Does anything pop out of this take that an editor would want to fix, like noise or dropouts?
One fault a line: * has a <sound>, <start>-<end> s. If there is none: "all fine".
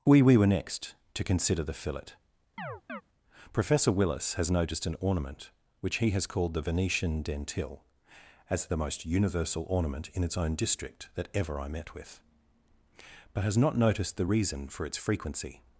* has a chirp, 2.6-3.0 s